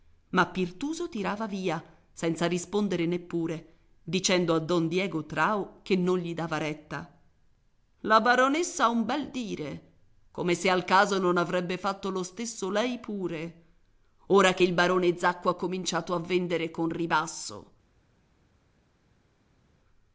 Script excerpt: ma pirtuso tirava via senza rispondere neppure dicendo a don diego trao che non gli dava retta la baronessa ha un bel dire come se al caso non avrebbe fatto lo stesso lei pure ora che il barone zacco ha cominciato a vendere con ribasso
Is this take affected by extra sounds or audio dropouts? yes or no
no